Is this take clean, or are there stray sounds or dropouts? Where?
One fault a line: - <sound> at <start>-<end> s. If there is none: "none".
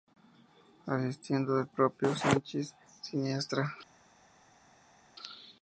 none